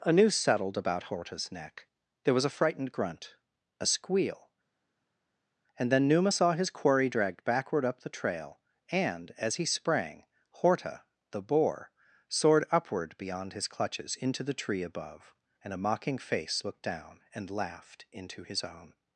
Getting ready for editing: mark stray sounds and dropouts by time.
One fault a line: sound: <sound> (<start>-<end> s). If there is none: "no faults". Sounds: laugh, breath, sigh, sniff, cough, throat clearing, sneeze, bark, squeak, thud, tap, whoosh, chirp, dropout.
no faults